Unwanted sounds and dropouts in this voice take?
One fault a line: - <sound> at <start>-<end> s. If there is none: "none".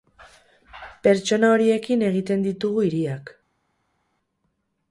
none